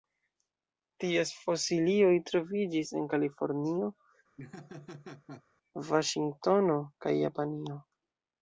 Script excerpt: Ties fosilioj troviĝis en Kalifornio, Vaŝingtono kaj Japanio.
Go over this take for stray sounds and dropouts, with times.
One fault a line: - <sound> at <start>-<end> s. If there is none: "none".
- laugh at 4.4-5.4 s